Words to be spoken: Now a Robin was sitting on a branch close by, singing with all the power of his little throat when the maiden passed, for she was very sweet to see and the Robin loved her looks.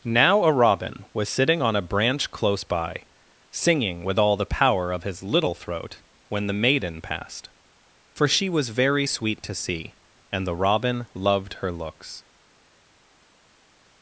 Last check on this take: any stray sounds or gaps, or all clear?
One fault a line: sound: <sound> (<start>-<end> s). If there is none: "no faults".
no faults